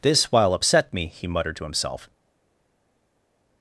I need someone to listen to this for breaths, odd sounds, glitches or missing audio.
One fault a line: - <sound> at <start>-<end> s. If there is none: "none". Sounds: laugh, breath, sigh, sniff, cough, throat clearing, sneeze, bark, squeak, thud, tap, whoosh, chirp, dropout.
none